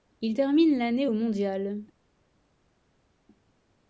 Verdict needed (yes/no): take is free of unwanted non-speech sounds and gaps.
yes